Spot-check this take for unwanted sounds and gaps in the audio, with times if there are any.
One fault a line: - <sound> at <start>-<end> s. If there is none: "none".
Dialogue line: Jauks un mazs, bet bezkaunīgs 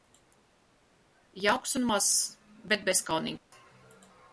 - dropout at 3.4-3.5 s